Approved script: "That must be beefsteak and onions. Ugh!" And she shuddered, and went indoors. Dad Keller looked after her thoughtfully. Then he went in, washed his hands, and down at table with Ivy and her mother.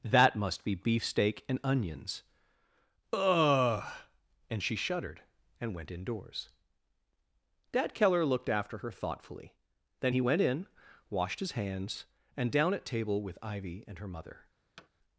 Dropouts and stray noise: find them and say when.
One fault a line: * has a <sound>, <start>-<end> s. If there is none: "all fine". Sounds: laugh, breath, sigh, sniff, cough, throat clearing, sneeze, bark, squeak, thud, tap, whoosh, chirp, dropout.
* has a thud, 14.8-14.9 s